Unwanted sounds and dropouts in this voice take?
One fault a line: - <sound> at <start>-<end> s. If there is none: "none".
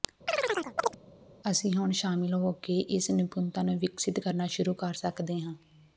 - chirp at 0.3-1.0 s